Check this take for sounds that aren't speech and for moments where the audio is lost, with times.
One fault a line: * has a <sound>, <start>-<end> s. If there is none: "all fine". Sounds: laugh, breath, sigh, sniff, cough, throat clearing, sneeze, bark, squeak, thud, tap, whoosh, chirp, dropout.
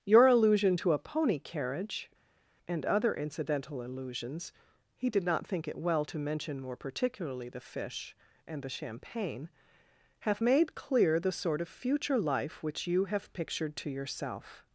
all fine